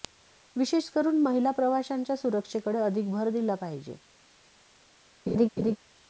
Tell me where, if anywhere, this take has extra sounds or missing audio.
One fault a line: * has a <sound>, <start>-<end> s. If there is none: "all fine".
* has a laugh, 5.3-5.8 s